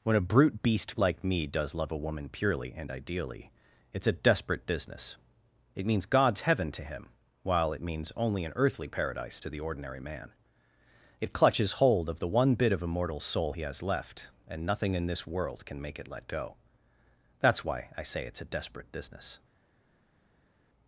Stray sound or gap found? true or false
false